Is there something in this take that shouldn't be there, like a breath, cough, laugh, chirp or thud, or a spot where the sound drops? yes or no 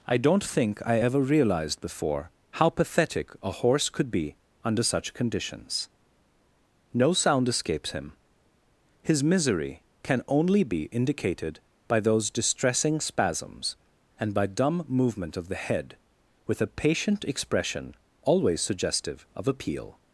no